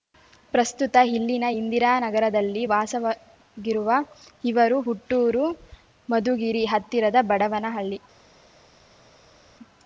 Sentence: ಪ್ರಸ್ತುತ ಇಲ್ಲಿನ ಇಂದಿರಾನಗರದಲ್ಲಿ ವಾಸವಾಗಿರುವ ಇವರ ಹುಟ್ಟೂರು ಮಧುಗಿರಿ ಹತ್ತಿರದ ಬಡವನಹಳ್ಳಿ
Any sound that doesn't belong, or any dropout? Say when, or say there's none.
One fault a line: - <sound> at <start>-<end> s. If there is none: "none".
none